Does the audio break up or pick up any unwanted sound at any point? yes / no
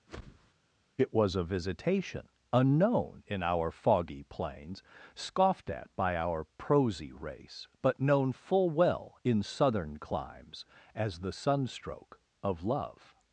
yes